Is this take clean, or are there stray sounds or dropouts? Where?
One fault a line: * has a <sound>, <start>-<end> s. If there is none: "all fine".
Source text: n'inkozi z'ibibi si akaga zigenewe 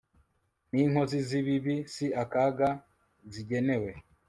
all fine